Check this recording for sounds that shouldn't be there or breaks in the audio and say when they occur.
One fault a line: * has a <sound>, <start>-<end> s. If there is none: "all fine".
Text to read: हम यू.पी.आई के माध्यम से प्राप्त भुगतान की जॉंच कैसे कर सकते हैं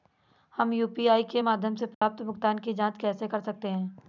* has a dropout, 1.9-2.0 s